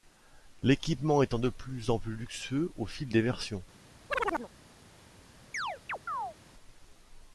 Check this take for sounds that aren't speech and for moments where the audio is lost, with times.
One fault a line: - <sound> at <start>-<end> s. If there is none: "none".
- chirp at 4.1-4.5 s
- chirp at 5.5-6.4 s